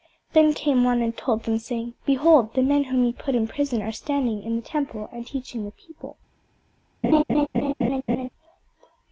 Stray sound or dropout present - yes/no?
yes